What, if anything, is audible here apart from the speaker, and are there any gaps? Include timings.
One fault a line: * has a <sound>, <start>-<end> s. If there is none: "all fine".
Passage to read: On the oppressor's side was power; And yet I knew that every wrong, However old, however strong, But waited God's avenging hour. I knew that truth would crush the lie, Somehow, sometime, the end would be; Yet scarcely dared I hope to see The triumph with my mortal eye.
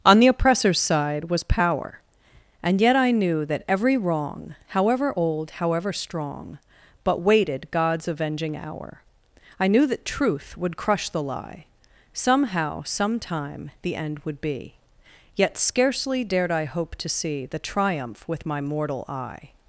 all fine